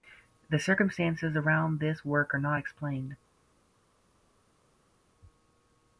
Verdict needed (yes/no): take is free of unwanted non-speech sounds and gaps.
yes